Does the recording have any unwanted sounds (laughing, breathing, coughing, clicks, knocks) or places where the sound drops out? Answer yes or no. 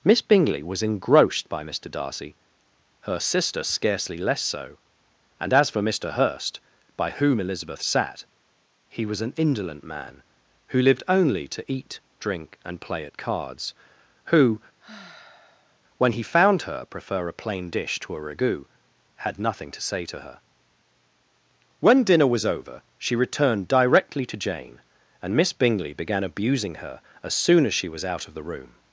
yes